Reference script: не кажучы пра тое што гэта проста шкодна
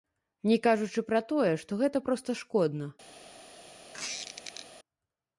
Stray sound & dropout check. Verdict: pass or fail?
fail